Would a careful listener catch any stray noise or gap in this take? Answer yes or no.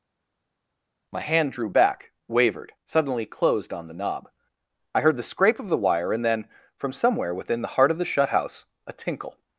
no